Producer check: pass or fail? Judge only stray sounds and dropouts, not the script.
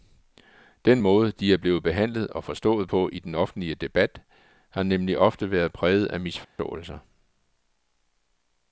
fail